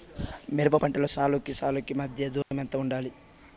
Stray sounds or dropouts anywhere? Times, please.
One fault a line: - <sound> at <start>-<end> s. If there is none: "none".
- dropout at 2.4-2.5 s